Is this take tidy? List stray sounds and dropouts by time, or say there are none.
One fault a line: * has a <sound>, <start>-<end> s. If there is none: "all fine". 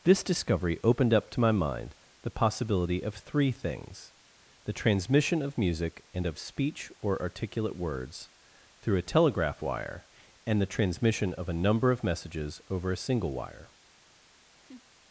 * has a laugh, 14.6-14.8 s